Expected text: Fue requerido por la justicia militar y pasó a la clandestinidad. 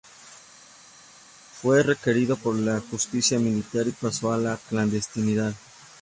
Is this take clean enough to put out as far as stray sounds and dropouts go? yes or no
yes